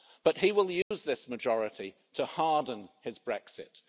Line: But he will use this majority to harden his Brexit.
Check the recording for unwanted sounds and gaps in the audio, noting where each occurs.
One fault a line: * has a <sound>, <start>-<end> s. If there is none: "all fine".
* has a dropout, 0.8-0.9 s